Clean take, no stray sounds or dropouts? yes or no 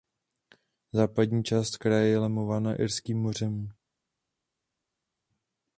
yes